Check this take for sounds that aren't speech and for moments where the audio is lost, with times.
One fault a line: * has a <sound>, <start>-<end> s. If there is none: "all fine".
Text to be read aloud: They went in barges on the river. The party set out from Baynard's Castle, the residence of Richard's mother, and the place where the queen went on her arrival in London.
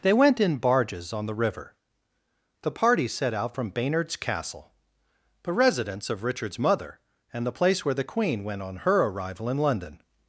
all fine